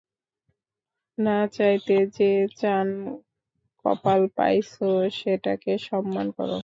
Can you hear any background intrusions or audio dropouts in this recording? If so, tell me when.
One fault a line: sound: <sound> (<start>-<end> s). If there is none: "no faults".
no faults